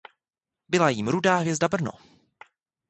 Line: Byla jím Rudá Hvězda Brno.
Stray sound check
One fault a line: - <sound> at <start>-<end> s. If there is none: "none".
none